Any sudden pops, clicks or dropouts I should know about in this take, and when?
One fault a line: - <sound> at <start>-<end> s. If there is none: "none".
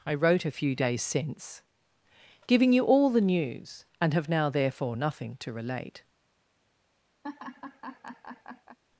- laugh at 7.2-8.8 s